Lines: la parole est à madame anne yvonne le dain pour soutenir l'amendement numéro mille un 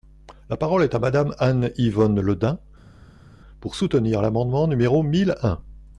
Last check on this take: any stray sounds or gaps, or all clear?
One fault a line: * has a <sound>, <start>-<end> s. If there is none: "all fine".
all fine